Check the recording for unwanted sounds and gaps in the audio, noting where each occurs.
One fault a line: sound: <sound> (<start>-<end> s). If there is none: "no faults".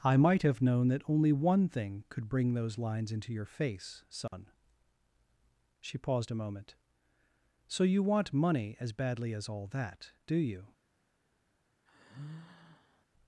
sound: dropout (4.3-4.3 s)
sound: sigh (11.9-13.1 s)